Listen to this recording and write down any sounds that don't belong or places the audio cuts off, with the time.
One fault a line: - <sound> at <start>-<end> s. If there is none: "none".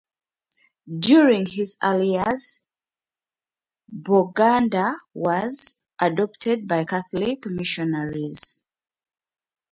none